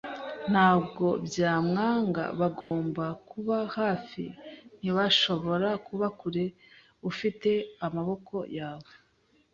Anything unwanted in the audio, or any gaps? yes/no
yes